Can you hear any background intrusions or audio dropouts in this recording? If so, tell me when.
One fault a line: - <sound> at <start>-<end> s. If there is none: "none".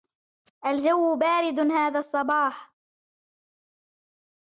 none